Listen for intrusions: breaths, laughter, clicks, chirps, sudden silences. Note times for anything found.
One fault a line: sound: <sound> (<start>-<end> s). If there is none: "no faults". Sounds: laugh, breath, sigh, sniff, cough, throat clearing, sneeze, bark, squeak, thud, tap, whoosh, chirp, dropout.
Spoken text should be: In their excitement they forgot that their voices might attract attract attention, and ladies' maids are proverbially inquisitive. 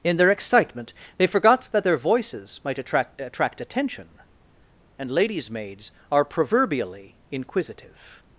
no faults